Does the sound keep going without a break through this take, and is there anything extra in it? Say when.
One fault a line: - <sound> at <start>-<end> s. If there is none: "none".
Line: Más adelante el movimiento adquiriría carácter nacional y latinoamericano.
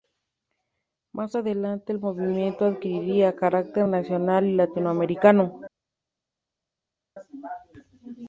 none